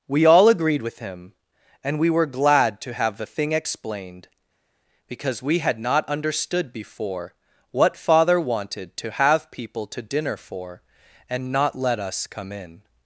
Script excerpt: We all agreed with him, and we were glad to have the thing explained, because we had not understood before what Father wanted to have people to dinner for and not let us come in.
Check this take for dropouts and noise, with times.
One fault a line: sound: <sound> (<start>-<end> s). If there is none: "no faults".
no faults